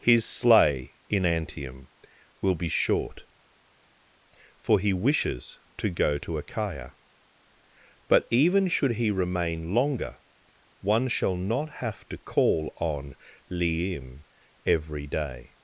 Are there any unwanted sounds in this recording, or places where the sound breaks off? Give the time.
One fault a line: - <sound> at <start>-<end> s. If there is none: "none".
none